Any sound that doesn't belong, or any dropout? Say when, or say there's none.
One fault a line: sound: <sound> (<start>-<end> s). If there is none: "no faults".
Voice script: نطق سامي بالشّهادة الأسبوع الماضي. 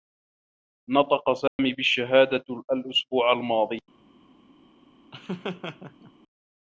sound: dropout (1.5-1.6 s)
sound: laugh (5.1-6.1 s)